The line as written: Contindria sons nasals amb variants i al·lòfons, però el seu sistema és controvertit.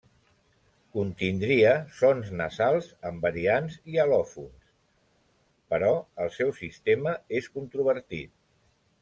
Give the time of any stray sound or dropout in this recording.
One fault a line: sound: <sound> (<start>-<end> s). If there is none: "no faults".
no faults